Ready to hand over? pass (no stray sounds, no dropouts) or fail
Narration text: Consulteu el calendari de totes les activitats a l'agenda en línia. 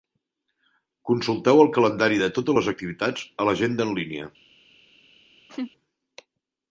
fail